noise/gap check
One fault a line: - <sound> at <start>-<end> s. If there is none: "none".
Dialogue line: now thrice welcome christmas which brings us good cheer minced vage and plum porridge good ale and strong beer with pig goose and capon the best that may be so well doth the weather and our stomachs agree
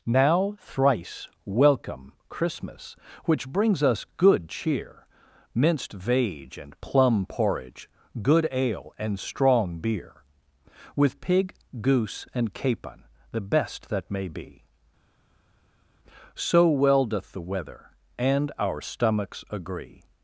none